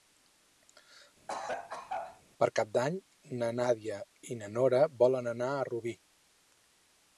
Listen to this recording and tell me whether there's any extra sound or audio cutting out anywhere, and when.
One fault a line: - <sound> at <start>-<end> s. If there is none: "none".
- cough at 1.3-2.2 s